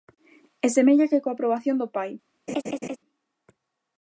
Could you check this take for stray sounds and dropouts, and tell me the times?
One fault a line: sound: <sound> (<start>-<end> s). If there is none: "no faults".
sound: laugh (2.5-3.0 s)